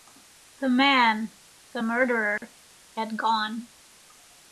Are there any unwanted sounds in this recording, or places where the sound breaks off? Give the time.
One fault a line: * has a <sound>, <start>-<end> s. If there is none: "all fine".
* has a dropout, 2.4-2.4 s